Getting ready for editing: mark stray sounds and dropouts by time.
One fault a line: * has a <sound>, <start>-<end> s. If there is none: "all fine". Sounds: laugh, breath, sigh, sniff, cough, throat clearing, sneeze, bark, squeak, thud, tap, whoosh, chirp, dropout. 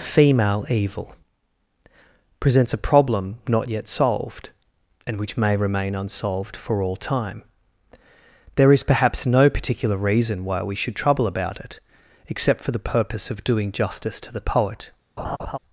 * has a laugh, 15.2-15.6 s